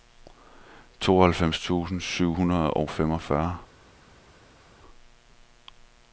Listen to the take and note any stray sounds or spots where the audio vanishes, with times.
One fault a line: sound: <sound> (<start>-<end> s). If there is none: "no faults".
no faults